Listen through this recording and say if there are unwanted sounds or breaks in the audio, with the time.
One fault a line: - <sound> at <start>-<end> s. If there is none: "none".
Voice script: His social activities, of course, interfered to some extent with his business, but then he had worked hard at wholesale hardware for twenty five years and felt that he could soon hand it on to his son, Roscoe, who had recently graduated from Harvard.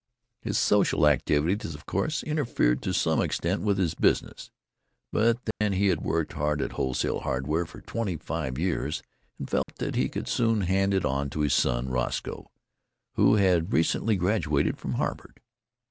- dropout at 5.5-5.6 s
- dropout at 9.6-9.7 s